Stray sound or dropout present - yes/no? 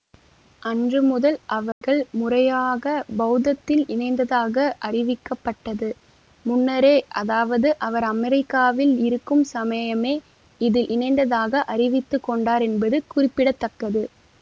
yes